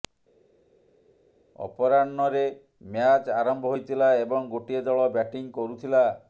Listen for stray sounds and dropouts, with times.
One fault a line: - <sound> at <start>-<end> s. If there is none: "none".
none